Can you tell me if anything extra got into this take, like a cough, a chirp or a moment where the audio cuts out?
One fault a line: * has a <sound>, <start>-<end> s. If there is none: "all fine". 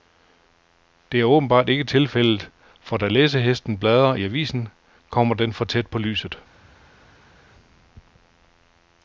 all fine